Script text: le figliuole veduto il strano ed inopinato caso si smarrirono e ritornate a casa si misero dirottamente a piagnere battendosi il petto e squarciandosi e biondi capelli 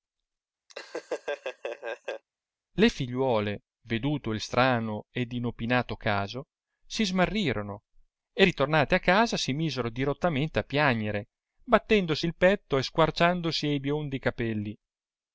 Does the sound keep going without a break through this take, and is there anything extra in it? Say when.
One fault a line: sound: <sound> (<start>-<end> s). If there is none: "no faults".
sound: laugh (0.7-2.2 s)